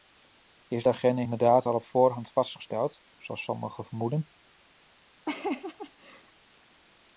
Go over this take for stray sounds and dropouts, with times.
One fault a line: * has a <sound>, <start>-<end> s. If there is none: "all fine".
* has a laugh, 5.3-6.3 s